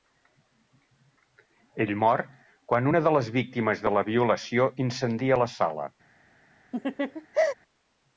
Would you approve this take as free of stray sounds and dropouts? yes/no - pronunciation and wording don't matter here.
no